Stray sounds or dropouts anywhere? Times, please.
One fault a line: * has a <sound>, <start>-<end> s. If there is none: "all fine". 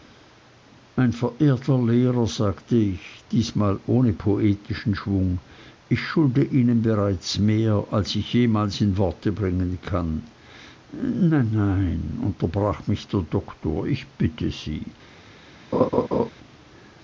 * has a laugh, 15.7-16.3 s